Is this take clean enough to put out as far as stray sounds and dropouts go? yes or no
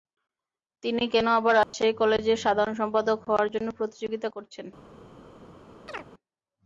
no